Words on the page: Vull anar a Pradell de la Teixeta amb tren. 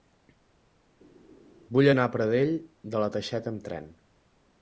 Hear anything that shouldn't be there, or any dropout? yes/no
no